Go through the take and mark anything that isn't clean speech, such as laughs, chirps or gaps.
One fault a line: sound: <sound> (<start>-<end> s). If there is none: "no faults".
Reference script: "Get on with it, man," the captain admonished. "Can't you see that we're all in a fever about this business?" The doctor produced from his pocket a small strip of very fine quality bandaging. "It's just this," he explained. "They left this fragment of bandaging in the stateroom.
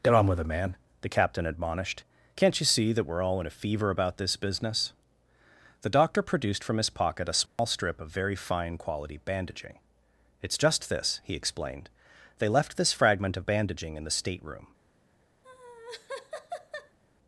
sound: dropout (7.5-7.6 s)
sound: laugh (15.4-17.0 s)